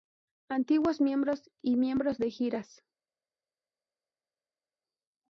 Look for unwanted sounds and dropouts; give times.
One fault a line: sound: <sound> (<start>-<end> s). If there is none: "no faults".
no faults